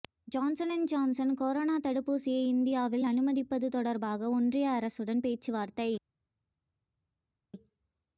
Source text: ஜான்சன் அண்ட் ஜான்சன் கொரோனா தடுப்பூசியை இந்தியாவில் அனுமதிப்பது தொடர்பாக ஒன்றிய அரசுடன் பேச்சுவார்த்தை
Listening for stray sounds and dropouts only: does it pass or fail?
pass